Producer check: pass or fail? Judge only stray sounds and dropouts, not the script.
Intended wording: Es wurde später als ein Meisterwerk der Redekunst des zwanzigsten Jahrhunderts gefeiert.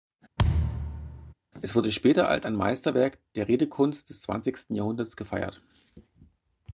fail